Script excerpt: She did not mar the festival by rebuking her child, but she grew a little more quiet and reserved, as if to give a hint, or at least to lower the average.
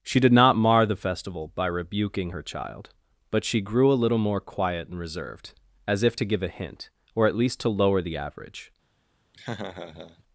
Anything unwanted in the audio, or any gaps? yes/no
yes